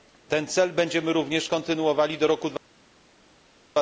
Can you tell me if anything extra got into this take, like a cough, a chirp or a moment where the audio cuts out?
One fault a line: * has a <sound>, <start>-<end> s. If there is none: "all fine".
all fine